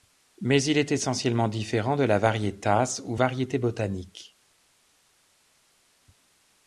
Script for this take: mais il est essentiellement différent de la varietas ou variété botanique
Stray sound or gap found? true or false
false